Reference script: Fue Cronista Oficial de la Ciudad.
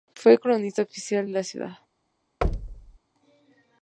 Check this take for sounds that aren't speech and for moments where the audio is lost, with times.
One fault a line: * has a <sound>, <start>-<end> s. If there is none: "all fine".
* has a thud, 2.4-3.0 s